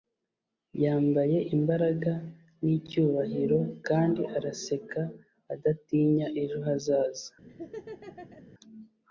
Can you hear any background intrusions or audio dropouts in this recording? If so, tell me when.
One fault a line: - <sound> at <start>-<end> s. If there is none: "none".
- laugh at 7.5-8.5 s